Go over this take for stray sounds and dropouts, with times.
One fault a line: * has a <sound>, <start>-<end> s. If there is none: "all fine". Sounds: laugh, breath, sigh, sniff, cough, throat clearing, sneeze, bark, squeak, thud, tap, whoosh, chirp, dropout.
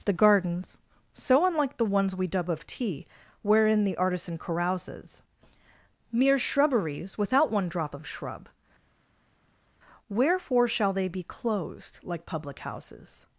all fine